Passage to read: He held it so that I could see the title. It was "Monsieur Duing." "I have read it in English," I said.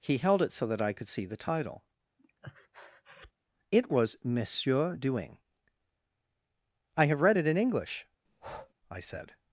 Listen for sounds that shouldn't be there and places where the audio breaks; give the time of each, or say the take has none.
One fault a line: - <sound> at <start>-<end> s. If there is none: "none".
- breath at 2.2-3.3 s
- breath at 8.3-8.7 s